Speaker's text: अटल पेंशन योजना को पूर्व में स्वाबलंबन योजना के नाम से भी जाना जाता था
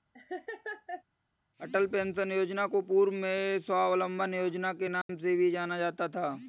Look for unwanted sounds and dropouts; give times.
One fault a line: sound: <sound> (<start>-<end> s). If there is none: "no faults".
sound: laugh (0.1-1.0 s)
sound: dropout (5.0-5.1 s)